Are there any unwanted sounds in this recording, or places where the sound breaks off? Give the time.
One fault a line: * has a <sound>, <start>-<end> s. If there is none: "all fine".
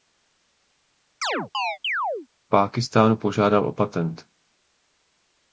* has a chirp, 1.2-2.3 s